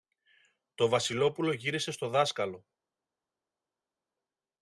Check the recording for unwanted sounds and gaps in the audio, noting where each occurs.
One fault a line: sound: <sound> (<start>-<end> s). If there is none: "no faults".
no faults